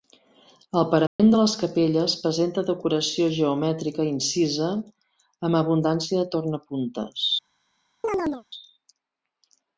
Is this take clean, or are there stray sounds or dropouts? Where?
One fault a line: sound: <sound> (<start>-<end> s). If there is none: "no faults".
sound: dropout (1.1-1.2 s)
sound: chirp (8.0-8.4 s)